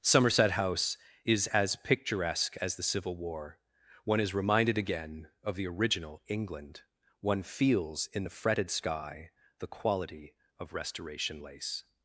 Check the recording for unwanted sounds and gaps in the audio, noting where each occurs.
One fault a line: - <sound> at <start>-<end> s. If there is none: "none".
none